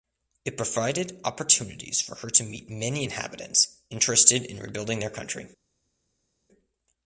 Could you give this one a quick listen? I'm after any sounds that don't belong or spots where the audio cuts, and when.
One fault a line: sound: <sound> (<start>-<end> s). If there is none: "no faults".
no faults